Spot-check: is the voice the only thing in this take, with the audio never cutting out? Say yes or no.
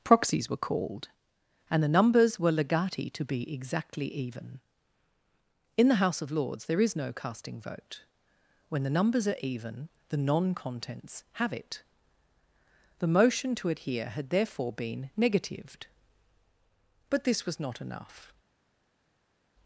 yes